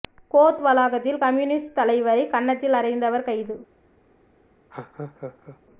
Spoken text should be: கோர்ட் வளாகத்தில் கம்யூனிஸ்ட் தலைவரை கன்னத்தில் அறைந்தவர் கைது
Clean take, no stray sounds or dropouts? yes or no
no